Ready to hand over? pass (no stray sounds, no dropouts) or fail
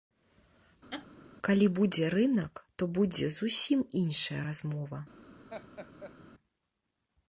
fail